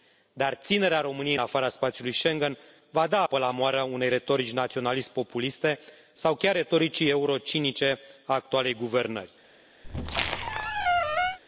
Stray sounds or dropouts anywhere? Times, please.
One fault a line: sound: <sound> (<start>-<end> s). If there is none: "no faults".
sound: squeak (9.8-11.4 s)